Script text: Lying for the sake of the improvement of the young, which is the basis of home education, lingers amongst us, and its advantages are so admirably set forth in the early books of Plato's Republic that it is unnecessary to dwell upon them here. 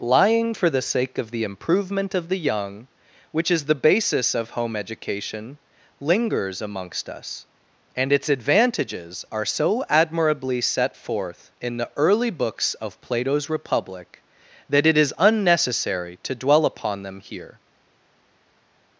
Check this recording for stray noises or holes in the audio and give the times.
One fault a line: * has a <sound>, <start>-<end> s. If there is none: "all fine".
all fine